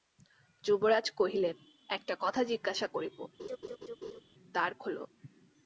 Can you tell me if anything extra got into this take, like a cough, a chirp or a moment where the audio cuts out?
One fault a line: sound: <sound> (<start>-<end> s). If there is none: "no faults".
sound: laugh (3.4-4.2 s)